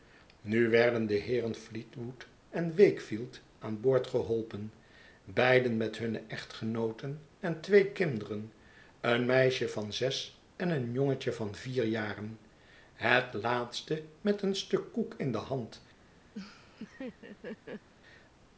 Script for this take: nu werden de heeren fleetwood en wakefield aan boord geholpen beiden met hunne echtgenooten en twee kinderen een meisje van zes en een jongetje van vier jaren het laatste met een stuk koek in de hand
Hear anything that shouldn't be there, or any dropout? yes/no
yes